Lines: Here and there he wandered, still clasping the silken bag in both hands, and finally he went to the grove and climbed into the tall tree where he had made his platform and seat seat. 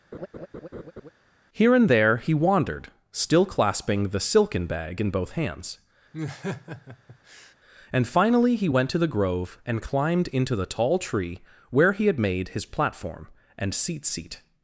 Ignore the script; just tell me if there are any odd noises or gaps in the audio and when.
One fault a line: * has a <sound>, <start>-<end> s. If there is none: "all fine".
* has a laugh, 0.1-1.1 s
* has a laugh, 6.1-7.5 s